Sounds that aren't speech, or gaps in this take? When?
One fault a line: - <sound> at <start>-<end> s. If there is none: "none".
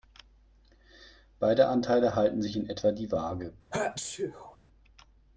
- sneeze at 3.7-4.6 s